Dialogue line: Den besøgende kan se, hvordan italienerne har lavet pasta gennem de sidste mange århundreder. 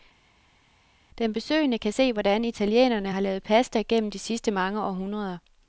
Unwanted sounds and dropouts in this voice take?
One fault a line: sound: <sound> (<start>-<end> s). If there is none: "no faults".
no faults